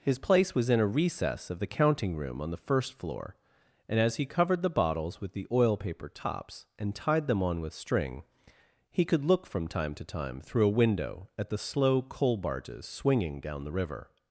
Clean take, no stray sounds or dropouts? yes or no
yes